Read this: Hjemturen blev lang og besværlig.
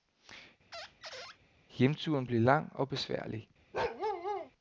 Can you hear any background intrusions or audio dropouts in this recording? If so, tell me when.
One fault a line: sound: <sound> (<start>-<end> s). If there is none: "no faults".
sound: squeak (0.7-1.4 s)
sound: bark (3.7-4.5 s)